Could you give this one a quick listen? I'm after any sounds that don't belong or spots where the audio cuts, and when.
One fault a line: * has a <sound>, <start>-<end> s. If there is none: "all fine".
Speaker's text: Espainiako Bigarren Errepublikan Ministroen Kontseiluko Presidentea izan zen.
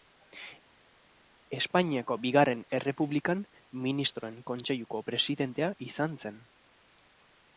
all fine